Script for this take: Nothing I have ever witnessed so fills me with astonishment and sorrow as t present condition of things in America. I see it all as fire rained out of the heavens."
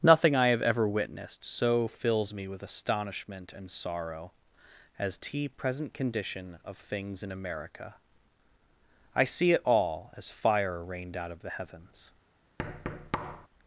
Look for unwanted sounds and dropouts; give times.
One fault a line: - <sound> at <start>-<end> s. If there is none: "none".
- thud at 12.6-13.5 s